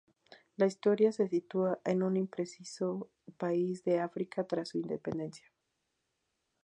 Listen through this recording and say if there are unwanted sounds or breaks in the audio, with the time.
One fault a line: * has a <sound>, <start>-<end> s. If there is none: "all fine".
all fine